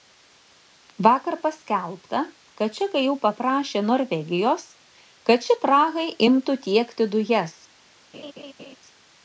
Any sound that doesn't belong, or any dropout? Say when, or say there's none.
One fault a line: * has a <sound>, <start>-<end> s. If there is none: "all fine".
* has a laugh, 8.1-8.8 s